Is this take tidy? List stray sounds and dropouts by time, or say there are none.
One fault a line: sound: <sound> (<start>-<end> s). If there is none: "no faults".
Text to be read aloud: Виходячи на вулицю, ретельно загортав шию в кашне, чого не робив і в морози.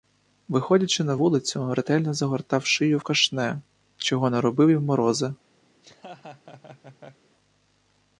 sound: laugh (5.7-7.3 s)